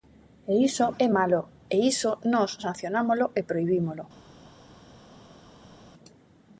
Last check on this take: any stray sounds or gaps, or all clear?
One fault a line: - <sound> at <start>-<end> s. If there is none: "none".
none